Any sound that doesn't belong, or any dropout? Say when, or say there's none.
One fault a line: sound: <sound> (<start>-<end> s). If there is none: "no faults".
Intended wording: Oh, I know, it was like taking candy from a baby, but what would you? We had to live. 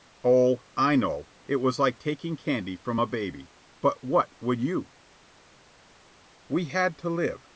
no faults